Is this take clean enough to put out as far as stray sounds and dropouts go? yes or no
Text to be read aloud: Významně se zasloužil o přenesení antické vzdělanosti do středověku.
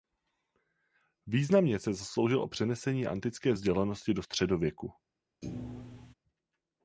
no